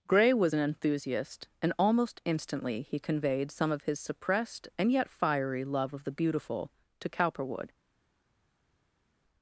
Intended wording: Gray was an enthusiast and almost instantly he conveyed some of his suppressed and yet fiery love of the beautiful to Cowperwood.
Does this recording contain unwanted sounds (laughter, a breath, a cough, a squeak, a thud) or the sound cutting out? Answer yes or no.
no